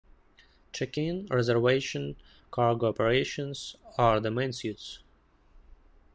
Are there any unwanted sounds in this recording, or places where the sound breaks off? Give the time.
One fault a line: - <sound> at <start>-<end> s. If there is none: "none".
none